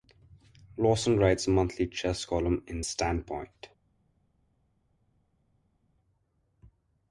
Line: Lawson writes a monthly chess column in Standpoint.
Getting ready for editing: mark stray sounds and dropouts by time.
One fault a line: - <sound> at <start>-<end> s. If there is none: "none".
none